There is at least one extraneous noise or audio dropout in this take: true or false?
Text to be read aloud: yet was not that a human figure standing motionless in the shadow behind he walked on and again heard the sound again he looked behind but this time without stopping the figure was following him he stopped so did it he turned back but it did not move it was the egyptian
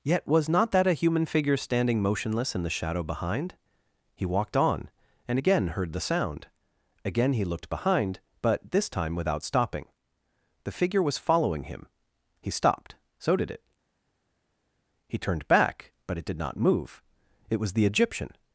false